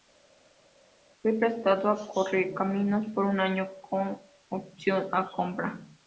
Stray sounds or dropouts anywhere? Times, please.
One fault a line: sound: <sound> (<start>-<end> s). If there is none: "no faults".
no faults